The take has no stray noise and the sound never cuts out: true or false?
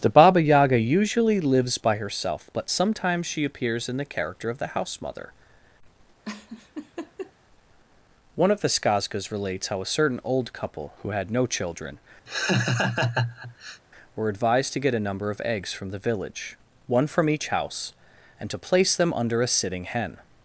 false